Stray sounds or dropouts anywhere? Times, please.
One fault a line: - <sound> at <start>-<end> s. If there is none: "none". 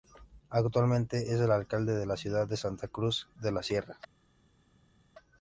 none